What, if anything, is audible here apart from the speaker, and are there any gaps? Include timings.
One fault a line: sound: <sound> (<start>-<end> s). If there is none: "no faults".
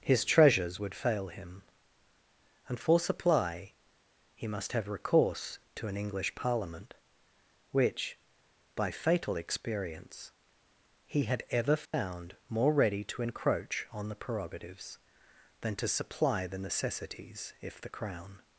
sound: dropout (11.9-11.9 s)